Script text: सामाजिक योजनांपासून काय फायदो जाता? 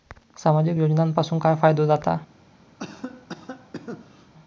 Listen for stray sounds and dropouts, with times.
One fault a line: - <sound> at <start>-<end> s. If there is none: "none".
- cough at 2.8-4.3 s